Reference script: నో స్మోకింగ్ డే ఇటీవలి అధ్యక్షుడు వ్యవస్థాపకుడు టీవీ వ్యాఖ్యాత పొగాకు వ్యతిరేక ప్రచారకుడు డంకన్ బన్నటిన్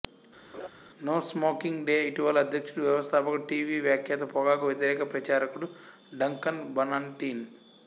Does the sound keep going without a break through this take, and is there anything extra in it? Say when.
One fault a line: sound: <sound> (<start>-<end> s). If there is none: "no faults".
sound: laugh (0.5-0.7 s)